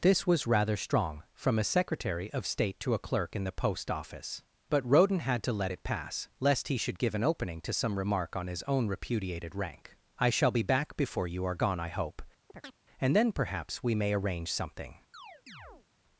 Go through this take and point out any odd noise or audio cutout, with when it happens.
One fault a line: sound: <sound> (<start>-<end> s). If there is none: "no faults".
sound: chirp (12.5-12.8 s)
sound: chirp (15.1-15.9 s)